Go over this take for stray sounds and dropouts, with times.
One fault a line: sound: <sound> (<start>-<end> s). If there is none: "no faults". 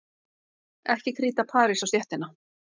no faults